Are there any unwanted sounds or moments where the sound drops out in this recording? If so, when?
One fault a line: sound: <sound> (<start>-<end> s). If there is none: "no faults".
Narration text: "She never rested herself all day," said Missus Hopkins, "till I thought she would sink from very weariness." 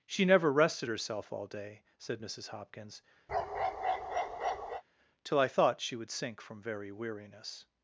sound: bark (3.3-4.8 s)